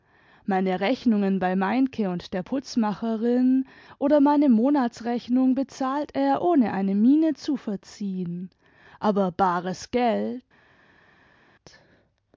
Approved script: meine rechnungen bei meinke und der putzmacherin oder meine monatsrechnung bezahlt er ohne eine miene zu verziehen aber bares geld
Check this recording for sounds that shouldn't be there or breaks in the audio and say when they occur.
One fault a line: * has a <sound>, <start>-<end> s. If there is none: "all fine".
all fine